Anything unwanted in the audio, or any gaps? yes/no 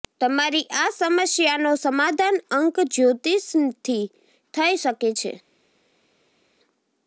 no